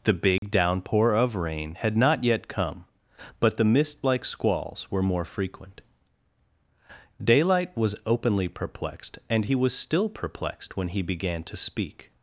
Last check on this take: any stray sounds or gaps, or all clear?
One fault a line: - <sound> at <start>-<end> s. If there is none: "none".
- dropout at 0.4-0.4 s